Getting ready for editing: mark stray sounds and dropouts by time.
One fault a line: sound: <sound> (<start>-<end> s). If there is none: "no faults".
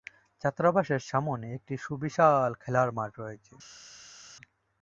no faults